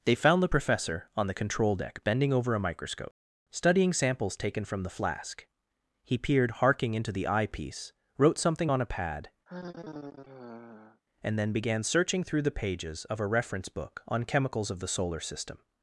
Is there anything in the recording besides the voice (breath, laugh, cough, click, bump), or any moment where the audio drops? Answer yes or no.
yes